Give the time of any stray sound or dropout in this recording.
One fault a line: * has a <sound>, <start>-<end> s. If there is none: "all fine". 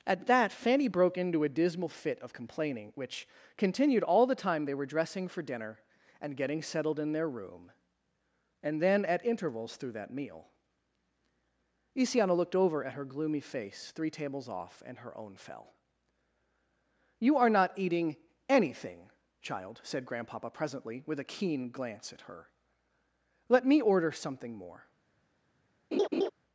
* has a laugh, 25.9-26.3 s